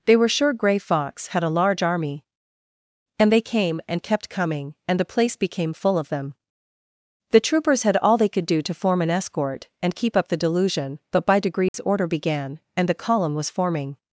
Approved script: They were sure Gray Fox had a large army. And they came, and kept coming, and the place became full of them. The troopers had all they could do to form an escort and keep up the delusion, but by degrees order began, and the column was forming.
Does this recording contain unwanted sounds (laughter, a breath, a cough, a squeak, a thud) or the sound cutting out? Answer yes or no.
yes